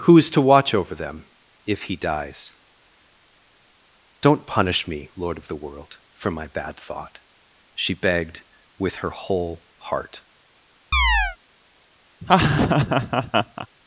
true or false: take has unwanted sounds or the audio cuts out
true